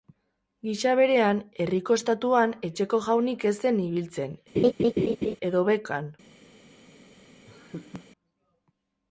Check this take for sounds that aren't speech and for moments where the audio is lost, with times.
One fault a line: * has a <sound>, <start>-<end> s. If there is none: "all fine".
* has a laugh, 4.5-5.4 s
* has a laugh, 7.5-8.1 s